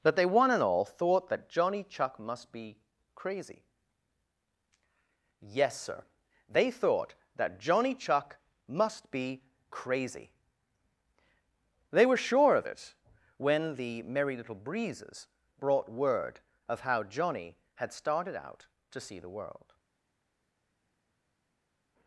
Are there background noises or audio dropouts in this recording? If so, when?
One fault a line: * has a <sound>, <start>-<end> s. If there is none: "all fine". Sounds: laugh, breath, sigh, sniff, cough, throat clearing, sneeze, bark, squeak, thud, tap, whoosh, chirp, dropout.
all fine